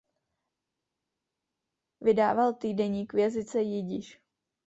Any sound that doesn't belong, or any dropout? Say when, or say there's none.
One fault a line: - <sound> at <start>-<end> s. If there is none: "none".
none